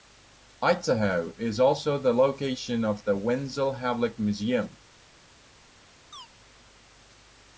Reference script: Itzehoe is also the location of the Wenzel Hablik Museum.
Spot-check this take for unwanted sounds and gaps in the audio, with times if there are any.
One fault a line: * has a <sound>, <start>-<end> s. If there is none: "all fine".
* has a chirp, 6.1-6.3 s